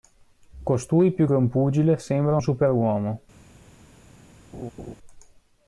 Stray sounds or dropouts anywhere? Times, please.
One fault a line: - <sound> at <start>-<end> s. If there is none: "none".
- laugh at 4.5-5.0 s